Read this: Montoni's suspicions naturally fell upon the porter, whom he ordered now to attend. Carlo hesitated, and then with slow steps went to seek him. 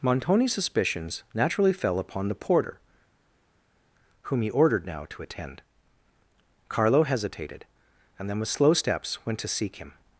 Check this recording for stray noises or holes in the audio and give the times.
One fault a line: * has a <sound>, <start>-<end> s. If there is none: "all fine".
all fine